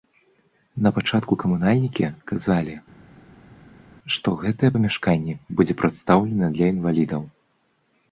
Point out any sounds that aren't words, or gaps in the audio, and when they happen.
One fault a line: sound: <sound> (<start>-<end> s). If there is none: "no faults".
no faults